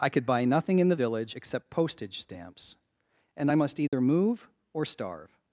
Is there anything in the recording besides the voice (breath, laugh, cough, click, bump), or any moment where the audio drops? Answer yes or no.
yes